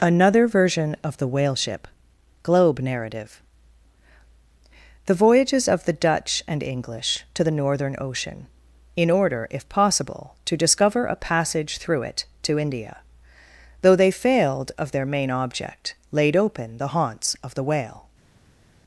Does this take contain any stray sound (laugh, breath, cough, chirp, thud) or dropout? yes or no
no